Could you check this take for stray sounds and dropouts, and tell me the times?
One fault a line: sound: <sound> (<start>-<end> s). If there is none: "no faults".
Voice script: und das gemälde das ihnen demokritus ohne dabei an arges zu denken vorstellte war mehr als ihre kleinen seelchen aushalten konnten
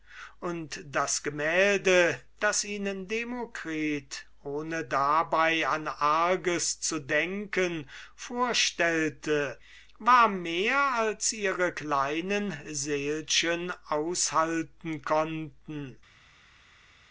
no faults